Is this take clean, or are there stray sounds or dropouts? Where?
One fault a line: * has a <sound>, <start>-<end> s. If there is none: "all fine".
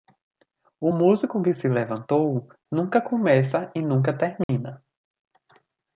* has a dropout, 4.4-4.5 s